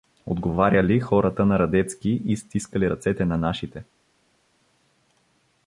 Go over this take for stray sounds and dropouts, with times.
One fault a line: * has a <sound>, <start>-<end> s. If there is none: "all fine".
all fine